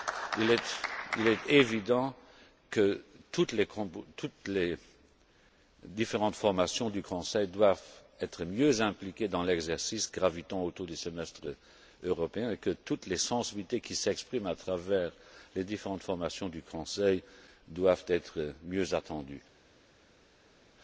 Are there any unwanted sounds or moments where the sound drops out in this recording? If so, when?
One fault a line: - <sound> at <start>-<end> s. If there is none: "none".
none